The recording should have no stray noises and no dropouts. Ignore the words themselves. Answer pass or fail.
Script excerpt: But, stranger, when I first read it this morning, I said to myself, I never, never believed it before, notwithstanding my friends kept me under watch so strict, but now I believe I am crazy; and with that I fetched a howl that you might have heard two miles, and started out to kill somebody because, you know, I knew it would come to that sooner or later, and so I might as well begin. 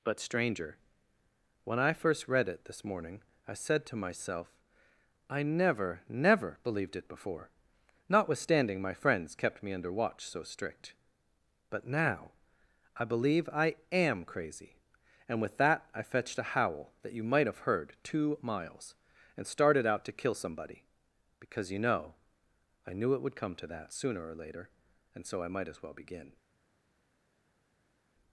pass